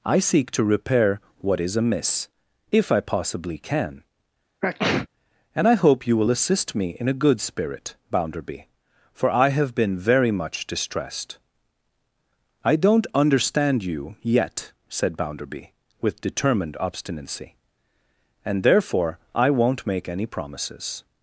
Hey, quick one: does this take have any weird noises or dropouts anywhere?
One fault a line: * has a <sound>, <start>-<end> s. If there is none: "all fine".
* has a sneeze, 4.6-5.1 s